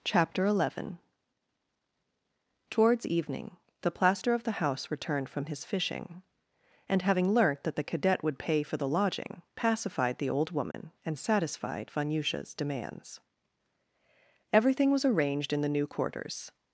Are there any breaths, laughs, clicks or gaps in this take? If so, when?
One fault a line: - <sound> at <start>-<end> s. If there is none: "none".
- dropout at 10.7-10.7 s